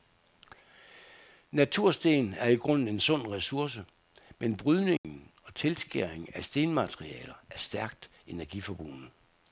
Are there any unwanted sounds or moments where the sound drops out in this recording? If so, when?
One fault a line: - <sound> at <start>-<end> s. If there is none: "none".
- dropout at 5.0-5.0 s